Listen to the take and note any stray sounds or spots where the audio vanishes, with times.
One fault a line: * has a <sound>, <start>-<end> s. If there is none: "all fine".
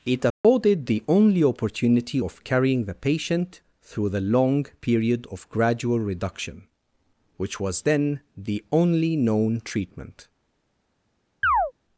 * has a dropout, 0.3-0.4 s
* has a chirp, 11.4-11.7 s